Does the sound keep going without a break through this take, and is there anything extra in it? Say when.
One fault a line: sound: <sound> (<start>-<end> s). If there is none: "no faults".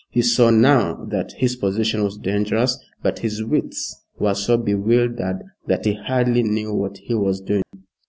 sound: dropout (7.6-7.7 s)